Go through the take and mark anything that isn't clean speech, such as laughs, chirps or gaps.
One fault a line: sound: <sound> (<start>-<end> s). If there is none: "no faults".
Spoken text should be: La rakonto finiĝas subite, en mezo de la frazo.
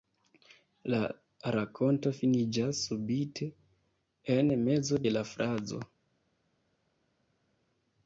no faults